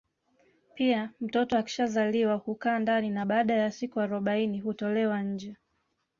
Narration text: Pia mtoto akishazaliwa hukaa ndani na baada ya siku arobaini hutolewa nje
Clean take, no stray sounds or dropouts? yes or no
yes